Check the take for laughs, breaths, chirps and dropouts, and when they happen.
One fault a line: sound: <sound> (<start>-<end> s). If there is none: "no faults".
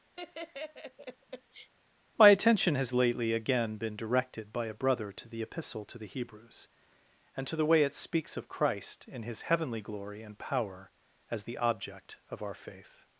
sound: laugh (0.2-1.7 s)